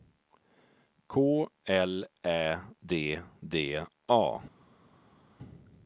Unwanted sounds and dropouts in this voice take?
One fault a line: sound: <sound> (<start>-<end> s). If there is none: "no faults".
no faults